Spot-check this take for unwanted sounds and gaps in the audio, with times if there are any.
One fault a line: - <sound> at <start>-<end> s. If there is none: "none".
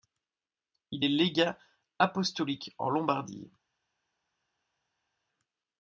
none